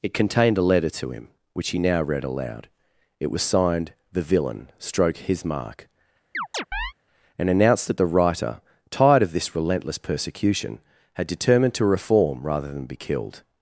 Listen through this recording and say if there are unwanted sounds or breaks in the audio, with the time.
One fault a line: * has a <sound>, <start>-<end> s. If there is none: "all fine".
* has a chirp, 6.3-6.9 s